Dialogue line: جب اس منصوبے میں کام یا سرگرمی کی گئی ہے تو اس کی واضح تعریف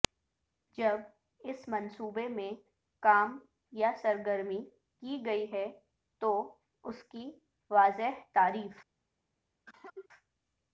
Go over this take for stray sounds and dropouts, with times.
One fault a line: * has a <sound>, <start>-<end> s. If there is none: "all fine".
* has a cough, 9.7-10.1 s